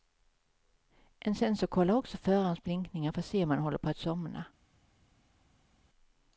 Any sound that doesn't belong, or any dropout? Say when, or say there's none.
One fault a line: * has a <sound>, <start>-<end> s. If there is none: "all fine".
all fine